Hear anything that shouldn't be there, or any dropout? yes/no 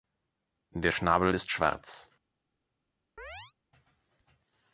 yes